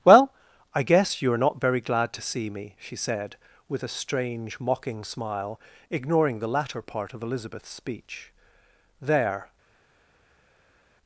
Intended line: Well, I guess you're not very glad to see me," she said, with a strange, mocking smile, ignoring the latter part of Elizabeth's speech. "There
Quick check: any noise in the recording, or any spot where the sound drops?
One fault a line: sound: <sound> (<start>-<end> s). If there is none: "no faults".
no faults